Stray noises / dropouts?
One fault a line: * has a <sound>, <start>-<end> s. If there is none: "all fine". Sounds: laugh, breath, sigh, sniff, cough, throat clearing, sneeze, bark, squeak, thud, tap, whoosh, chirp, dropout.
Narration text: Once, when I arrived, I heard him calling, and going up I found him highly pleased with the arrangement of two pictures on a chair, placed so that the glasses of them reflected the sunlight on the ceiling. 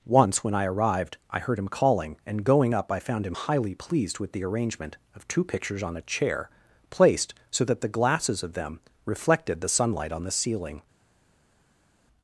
all fine